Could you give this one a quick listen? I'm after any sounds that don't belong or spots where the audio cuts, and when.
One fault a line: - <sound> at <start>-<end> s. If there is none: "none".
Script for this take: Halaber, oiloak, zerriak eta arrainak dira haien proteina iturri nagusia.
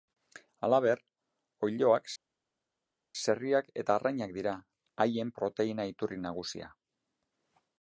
none